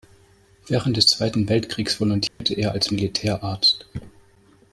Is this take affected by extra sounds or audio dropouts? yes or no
yes